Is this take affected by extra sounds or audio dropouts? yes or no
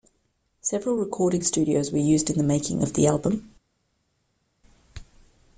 no